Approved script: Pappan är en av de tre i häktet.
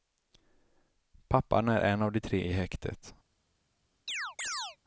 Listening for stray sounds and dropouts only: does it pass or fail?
fail